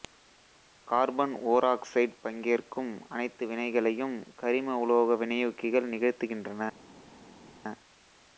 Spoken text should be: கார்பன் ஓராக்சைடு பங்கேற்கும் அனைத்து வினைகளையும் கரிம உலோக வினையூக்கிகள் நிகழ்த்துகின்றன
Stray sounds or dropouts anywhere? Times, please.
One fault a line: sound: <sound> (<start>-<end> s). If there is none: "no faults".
no faults